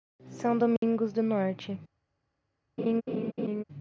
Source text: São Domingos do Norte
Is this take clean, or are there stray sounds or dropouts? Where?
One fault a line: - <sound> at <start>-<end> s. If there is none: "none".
- dropout at 0.8-0.8 s
- laugh at 2.8-3.6 s